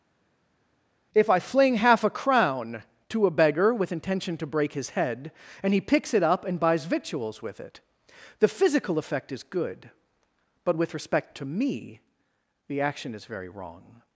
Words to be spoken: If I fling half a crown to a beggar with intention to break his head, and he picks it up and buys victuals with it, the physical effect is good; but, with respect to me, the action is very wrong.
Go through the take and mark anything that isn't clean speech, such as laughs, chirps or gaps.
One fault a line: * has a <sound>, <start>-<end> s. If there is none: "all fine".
all fine